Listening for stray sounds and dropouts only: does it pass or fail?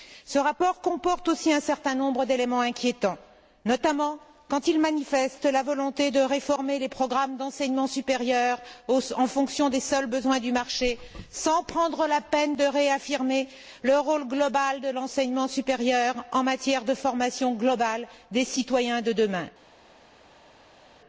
pass